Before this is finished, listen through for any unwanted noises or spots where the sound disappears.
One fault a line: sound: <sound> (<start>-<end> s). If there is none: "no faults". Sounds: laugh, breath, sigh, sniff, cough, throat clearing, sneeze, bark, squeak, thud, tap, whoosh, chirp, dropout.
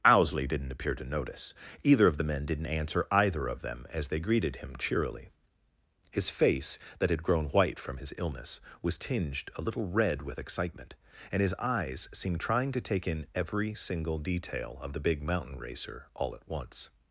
no faults